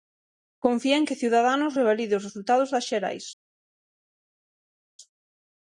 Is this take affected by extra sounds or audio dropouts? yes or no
no